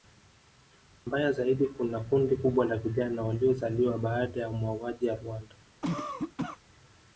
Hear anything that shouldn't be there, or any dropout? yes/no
yes